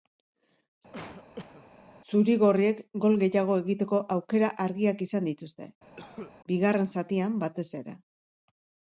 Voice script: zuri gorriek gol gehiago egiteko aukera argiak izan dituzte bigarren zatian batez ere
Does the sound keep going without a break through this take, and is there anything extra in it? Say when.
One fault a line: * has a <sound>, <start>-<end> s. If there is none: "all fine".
* has a cough, 0.9-1.7 s
* has a cough, 6.0-6.3 s